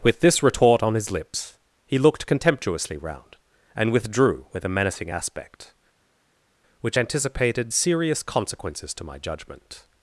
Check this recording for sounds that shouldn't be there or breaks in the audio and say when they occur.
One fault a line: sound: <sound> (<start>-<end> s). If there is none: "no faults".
no faults